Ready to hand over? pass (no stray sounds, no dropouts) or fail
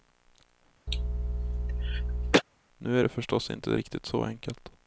fail